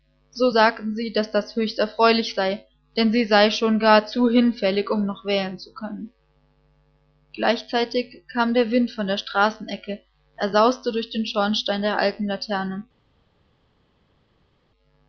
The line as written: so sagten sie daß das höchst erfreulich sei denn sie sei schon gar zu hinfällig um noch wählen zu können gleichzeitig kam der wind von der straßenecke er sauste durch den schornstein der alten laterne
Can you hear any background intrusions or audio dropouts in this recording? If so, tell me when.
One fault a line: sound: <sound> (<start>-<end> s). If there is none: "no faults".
no faults